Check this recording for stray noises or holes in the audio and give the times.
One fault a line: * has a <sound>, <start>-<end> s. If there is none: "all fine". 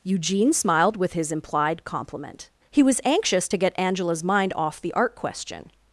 all fine